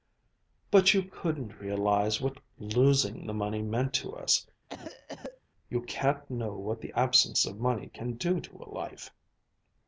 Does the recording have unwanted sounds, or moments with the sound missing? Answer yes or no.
yes